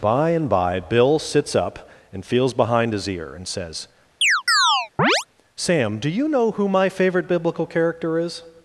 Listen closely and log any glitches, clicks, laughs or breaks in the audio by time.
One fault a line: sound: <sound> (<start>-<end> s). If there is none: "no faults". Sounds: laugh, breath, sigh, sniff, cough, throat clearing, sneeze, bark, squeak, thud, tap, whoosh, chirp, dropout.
sound: chirp (4.2-5.2 s)